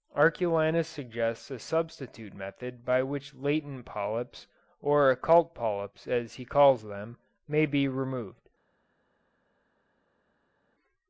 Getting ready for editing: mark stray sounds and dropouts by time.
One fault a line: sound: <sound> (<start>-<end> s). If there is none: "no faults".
no faults